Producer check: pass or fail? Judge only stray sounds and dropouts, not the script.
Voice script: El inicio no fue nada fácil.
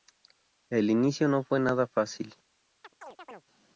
fail